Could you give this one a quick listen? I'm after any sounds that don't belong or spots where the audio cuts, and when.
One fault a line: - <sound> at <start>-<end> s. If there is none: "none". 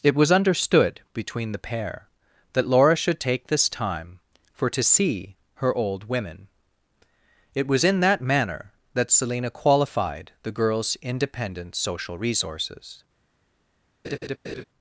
- laugh at 14.0-14.6 s